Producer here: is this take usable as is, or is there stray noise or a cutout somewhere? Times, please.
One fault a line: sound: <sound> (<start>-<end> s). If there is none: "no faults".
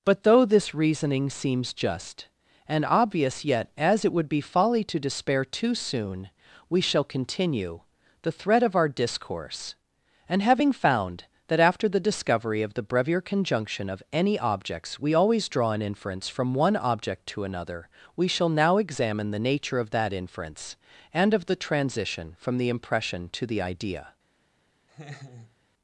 sound: laugh (24.9-25.6 s)